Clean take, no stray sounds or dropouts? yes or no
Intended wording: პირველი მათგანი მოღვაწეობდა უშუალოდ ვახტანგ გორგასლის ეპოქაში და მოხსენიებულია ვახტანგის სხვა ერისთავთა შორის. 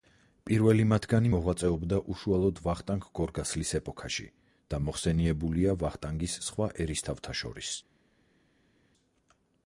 yes